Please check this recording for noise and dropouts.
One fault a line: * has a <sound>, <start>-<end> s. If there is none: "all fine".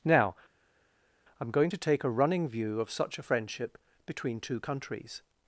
all fine